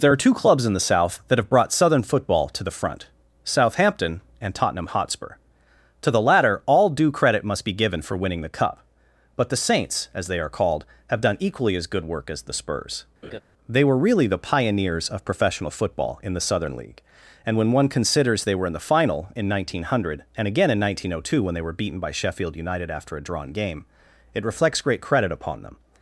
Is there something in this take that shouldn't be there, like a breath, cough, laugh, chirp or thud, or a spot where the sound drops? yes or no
yes